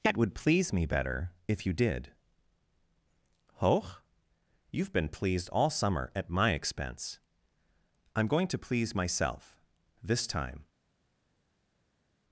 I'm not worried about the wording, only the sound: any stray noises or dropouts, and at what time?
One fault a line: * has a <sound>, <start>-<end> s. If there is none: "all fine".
all fine